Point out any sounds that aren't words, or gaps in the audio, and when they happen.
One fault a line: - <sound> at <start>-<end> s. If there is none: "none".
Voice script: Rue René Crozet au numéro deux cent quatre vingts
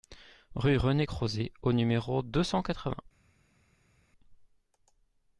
none